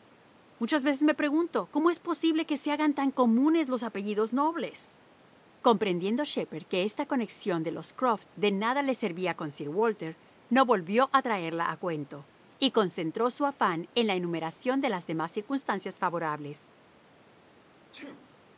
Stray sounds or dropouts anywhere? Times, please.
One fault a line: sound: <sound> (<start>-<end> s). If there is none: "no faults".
sound: sneeze (17.9-18.4 s)